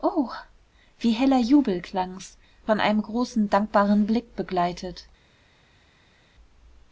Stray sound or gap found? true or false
false